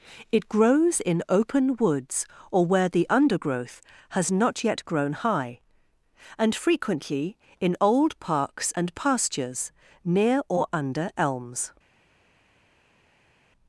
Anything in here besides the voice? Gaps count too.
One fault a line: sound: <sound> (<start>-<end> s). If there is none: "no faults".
no faults